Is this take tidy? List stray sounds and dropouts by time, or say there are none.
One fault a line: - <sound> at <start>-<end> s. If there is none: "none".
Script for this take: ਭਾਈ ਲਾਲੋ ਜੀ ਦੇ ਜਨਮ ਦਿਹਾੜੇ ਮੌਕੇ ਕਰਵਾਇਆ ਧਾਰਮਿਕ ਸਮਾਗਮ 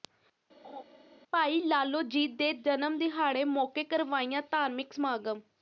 - laugh at 0.6-0.8 s